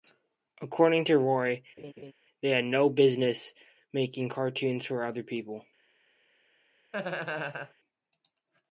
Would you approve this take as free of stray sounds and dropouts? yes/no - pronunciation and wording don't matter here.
no